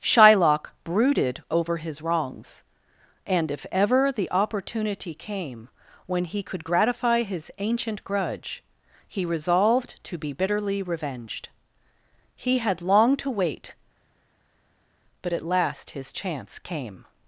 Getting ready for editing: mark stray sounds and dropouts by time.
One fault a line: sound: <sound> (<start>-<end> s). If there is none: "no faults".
no faults